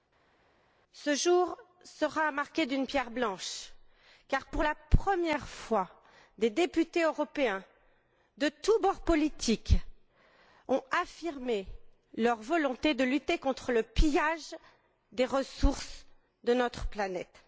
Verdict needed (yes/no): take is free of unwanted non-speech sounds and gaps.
yes